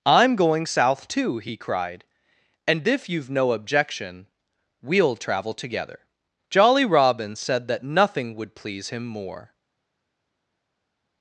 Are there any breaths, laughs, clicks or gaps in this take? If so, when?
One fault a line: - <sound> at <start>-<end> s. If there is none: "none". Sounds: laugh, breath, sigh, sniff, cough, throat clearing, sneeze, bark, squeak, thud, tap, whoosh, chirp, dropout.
none